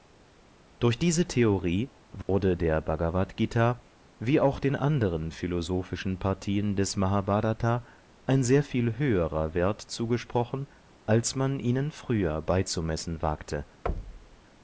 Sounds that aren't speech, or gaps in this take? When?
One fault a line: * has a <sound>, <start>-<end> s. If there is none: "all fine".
* has a dropout, 2.2-2.3 s
* has a thud, 13.9-14.4 s